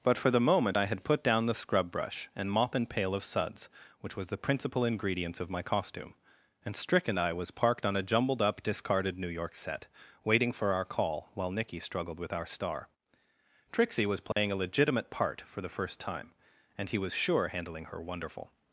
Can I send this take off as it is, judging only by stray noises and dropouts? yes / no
no